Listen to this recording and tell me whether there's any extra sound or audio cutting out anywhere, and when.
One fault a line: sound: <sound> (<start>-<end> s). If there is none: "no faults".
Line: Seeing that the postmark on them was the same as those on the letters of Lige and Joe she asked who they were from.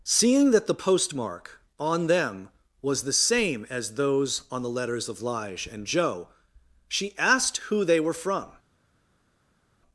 no faults